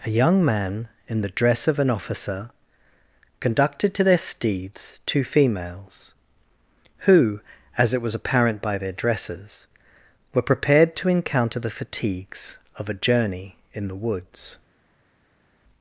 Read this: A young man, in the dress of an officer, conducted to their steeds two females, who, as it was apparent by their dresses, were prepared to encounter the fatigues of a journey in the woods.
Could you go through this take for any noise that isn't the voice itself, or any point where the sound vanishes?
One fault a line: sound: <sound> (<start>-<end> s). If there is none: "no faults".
no faults